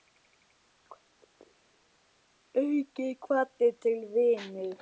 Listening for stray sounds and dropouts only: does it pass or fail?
pass